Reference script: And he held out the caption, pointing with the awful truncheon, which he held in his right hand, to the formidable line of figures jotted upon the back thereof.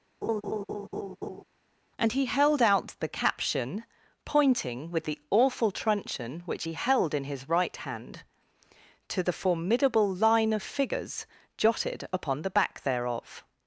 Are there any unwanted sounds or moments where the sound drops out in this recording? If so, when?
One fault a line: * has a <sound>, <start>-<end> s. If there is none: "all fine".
* has a laugh, 0.2-1.4 s